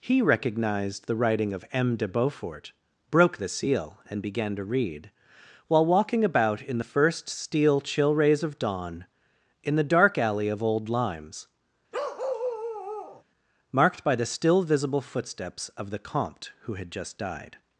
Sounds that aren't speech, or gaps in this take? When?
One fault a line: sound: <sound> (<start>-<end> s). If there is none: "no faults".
sound: bark (11.9-13.2 s)